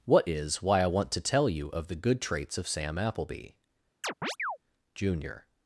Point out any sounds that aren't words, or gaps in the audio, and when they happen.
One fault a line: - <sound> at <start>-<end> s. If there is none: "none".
- chirp at 4.0-4.6 s